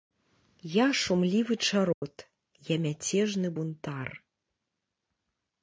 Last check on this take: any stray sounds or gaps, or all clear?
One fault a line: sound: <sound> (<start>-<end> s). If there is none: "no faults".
sound: dropout (1.9-2.0 s)